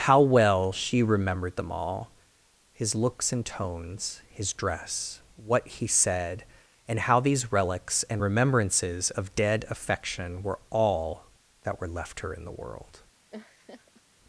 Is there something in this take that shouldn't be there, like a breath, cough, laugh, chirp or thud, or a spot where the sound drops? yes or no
yes